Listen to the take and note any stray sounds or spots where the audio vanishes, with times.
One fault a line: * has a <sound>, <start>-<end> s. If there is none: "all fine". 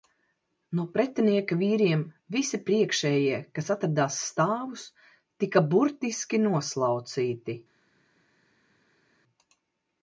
all fine